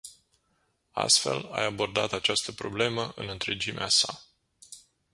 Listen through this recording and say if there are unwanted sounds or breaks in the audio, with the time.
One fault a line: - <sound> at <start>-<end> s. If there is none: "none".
none